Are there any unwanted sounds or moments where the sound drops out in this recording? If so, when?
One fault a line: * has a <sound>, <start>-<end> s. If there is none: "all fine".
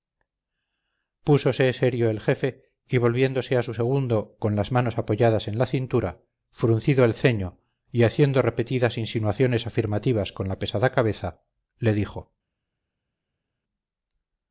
all fine